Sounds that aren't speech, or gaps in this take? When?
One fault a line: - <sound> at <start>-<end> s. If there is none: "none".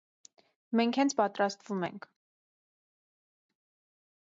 none